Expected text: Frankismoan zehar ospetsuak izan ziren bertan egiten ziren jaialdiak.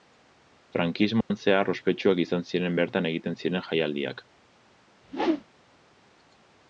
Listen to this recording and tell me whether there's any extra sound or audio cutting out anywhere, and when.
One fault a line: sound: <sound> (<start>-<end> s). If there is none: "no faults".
sound: dropout (1.2-1.3 s)
sound: whoosh (5.0-5.4 s)